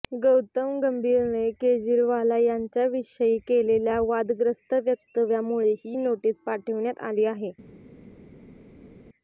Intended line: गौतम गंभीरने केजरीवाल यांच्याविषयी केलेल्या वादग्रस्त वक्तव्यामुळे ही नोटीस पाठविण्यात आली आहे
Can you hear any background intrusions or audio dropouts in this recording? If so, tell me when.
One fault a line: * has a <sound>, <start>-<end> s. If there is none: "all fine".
all fine